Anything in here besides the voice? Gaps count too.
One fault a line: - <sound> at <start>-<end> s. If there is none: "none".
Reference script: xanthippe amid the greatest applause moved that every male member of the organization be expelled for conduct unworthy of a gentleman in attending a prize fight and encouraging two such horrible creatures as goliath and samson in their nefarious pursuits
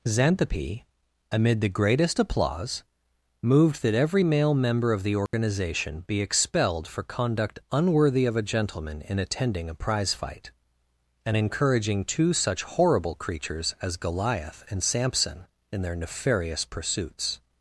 - dropout at 5.3-5.3 s